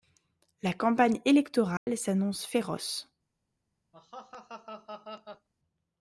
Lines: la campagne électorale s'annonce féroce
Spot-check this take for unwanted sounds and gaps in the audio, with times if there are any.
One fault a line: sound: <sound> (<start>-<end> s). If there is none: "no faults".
sound: dropout (1.8-1.9 s)
sound: laugh (3.9-5.5 s)